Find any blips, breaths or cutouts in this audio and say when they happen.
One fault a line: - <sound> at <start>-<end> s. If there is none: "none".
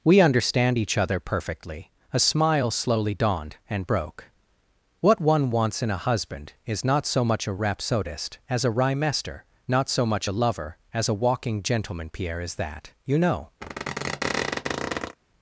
- squeak at 13.6-15.2 s